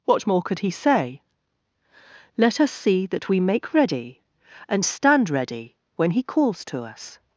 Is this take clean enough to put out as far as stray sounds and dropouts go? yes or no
yes